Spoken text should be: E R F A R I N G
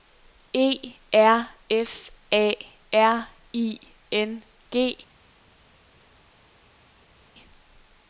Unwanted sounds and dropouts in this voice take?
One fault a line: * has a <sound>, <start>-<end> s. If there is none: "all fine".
all fine